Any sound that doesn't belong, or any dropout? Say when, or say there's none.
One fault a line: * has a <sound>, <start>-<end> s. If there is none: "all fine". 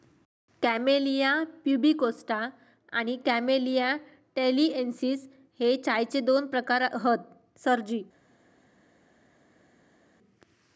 all fine